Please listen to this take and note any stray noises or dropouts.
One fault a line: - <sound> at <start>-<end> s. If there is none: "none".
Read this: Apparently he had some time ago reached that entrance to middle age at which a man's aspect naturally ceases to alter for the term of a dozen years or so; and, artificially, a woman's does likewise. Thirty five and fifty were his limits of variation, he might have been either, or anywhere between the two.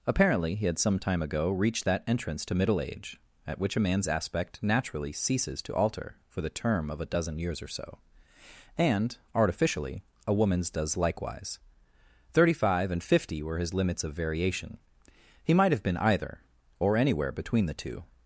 none